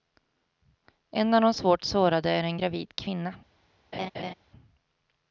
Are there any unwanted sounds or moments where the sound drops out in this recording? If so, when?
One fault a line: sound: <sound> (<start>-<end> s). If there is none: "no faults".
sound: laugh (3.9-4.3 s)